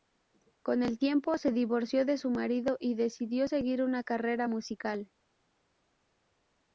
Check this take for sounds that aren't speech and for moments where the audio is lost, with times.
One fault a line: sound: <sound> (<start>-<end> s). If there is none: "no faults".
no faults